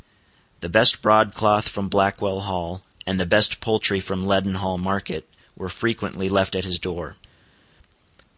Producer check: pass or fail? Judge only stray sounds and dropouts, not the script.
pass